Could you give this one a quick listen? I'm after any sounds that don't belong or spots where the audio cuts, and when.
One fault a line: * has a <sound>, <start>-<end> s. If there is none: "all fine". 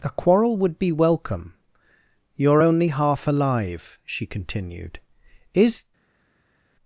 all fine